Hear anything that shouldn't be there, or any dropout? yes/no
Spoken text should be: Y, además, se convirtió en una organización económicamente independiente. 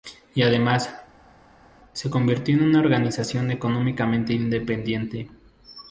no